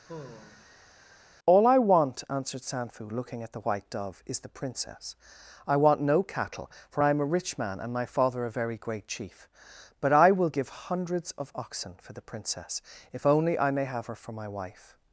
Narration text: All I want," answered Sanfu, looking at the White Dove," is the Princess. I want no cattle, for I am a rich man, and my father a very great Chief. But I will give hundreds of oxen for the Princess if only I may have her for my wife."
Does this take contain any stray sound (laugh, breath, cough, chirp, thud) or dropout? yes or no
yes